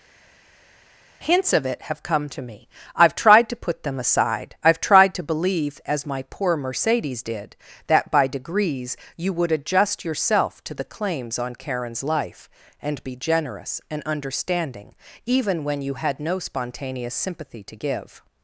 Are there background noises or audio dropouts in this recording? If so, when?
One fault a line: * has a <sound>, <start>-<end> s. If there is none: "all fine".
all fine